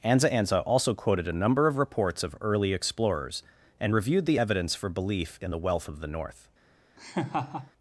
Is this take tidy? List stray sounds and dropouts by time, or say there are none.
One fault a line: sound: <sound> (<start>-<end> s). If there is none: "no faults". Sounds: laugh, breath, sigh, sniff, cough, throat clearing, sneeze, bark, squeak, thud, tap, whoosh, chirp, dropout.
sound: laugh (7.0-7.7 s)